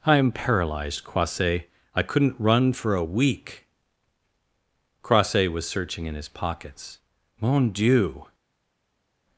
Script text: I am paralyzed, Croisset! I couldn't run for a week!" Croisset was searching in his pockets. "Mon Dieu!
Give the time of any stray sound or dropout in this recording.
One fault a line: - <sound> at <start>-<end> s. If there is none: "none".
none